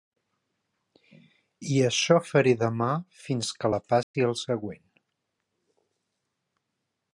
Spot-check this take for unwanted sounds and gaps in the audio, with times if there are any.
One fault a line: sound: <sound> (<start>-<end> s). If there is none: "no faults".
sound: dropout (4.0-4.1 s)